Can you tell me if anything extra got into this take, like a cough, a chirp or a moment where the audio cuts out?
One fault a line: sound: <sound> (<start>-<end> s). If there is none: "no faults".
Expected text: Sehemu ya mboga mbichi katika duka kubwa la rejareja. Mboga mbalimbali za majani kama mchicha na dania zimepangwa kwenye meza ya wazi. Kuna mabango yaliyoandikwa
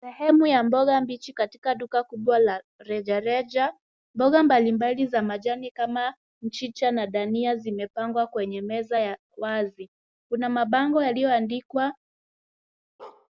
sound: bark (13.0-13.3 s)